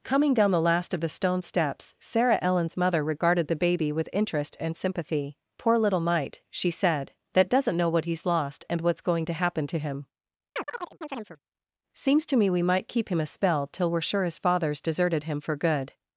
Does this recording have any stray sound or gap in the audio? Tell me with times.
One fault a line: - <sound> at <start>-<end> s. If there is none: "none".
- chirp at 10.6-11.4 s